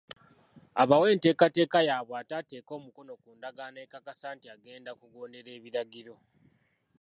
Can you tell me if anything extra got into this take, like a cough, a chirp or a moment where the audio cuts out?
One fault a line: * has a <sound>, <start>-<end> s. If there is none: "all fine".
all fine